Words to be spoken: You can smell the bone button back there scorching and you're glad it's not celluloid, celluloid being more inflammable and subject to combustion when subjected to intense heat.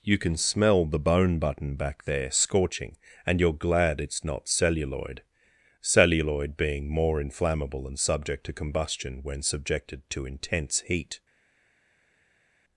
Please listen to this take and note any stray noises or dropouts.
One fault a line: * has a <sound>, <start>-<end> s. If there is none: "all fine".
all fine